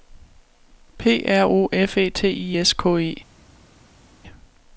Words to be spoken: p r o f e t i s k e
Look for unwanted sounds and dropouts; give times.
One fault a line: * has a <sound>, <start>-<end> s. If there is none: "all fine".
all fine